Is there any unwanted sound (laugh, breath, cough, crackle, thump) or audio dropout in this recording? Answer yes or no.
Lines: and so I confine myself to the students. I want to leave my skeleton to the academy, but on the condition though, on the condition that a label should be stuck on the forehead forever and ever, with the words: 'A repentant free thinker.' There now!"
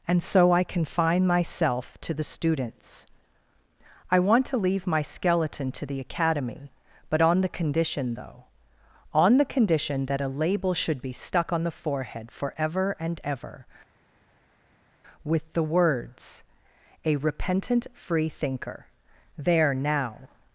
no